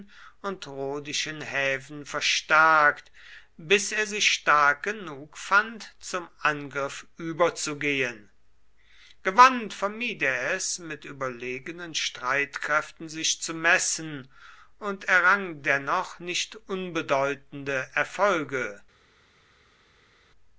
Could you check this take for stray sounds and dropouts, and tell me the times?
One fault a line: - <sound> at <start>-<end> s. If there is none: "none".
none